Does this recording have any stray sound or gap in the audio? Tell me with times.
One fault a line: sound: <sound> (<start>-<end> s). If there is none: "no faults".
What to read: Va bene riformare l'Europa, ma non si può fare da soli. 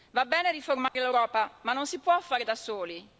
sound: dropout (0.9-1.0 s)